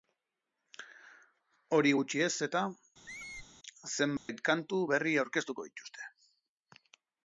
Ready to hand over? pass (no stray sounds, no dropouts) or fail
fail